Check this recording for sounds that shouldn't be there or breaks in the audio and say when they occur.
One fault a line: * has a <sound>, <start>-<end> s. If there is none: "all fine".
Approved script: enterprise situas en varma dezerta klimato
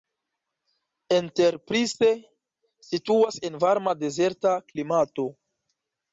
all fine